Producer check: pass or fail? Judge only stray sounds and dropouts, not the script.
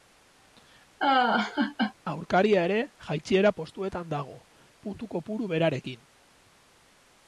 fail